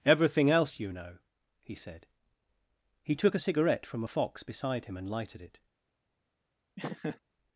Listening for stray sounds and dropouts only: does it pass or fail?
fail